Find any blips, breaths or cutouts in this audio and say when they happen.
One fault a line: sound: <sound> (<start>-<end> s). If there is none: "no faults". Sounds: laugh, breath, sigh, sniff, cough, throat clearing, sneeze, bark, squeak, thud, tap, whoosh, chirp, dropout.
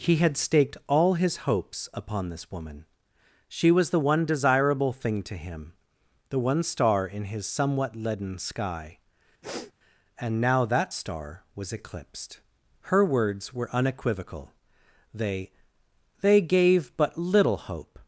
sound: sniff (9.4-9.7 s)